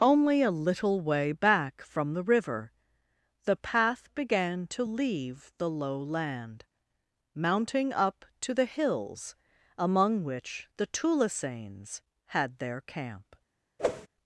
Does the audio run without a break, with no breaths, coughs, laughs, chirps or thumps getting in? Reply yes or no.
no